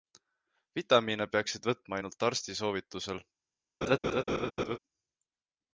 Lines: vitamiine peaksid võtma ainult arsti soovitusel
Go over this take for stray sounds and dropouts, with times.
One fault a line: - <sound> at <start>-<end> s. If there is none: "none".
- laugh at 3.8-4.8 s